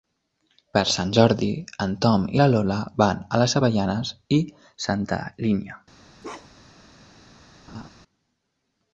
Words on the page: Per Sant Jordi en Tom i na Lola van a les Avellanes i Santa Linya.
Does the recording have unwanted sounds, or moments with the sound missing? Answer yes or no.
yes